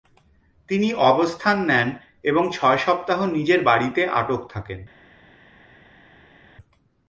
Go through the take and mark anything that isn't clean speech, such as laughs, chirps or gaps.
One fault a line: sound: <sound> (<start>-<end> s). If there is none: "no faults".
no faults